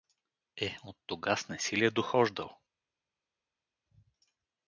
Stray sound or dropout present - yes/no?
no